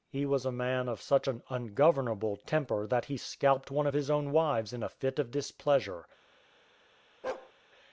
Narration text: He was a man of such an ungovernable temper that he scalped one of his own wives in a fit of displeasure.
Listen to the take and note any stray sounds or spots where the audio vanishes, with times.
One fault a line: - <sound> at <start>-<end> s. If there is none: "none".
- bark at 7.2-7.5 s